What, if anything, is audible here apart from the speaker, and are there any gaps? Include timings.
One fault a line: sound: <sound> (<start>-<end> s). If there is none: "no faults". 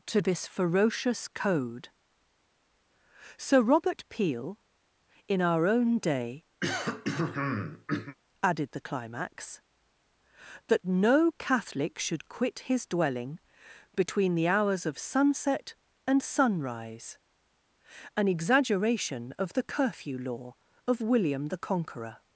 sound: throat clearing (6.6-8.2 s)